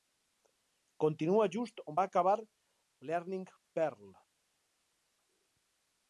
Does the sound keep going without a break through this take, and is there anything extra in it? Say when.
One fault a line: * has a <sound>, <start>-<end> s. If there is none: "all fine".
all fine